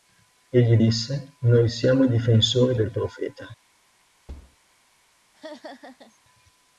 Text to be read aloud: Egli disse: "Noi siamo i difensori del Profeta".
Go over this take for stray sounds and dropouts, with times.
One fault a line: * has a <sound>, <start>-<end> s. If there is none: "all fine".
* has a thud, 4.3-4.6 s
* has a laugh, 5.3-6.2 s